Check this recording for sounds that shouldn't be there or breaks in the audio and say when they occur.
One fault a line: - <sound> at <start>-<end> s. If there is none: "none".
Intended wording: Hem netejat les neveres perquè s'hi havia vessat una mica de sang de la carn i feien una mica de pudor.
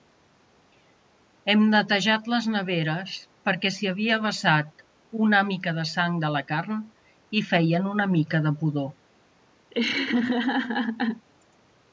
- laugh at 9.7-11.3 s